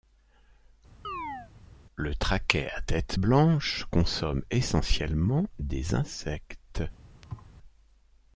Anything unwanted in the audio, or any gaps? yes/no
yes